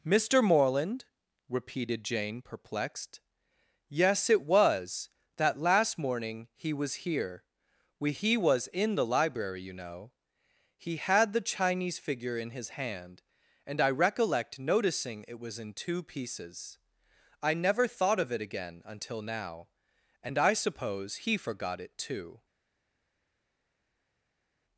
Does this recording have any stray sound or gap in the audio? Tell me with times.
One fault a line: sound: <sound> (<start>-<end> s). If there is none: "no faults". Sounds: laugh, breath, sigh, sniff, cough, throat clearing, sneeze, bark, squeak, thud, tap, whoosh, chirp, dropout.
no faults